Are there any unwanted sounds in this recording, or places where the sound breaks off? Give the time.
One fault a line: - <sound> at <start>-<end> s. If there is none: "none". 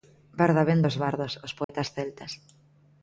- dropout at 1.6-1.7 s